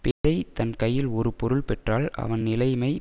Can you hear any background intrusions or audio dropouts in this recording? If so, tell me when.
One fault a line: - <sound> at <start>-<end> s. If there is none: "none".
- dropout at 0.1-0.2 s